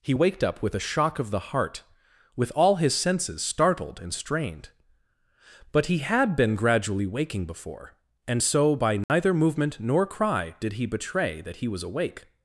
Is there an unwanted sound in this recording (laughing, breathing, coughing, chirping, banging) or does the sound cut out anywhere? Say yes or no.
yes